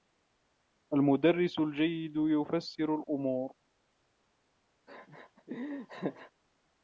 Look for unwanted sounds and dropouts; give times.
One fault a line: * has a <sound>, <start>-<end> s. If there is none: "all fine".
* has a laugh, 4.9-6.3 s